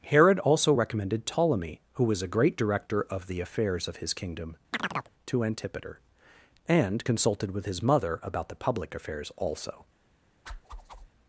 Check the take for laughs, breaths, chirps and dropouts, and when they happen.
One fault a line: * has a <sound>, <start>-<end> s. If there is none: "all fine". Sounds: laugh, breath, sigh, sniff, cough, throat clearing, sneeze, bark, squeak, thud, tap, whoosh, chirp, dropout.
* has a chirp, 4.7-5.1 s
* has a whoosh, 10.5-11.1 s